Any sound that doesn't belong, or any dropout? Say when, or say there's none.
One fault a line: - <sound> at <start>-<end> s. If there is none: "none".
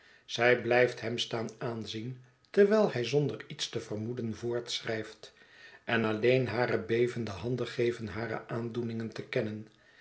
none